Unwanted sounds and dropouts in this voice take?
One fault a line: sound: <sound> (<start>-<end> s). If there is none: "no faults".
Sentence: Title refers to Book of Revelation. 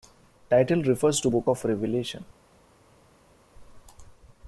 no faults